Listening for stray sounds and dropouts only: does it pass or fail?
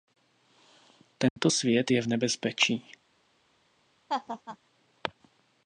fail